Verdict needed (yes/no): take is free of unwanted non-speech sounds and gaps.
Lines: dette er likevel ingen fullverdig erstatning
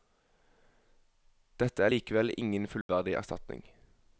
no